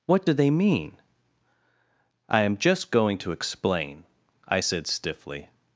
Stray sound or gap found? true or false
false